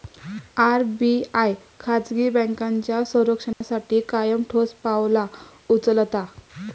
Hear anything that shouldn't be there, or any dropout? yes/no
yes